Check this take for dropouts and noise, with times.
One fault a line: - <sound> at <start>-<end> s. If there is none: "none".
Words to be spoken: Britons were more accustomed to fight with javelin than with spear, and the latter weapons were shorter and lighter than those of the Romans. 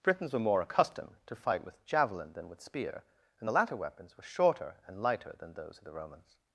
none